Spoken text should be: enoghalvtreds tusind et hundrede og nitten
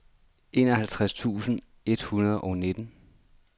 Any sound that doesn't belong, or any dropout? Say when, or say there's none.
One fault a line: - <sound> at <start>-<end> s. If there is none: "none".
none